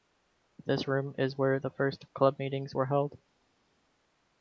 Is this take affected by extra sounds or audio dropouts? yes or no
no